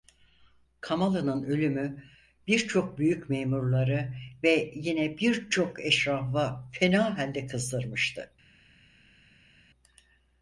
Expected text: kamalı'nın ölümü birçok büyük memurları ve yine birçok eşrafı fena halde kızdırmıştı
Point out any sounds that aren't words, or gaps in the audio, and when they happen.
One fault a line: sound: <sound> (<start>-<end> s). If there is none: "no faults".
no faults